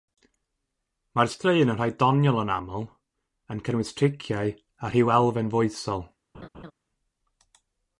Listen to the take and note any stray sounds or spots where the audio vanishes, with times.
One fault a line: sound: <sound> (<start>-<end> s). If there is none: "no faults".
sound: laugh (6.3-6.7 s)